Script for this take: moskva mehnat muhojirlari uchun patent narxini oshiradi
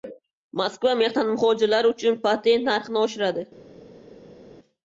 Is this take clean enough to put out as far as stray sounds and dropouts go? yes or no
yes